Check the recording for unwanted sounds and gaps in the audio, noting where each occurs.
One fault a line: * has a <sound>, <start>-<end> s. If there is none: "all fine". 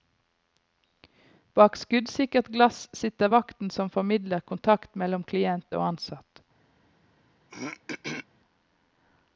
* has a throat clearing, 7.5-8.3 s